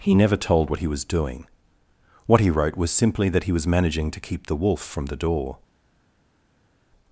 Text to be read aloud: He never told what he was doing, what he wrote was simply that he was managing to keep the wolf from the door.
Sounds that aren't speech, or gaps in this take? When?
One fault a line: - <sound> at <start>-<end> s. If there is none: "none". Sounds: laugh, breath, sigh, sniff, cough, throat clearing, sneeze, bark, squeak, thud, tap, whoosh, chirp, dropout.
none